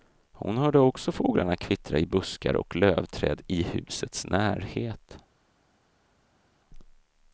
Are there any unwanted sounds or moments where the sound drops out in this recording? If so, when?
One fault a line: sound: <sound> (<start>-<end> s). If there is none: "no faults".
no faults